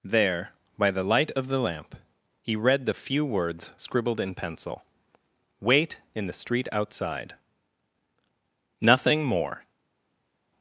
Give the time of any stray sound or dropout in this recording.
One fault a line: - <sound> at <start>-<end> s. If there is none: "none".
none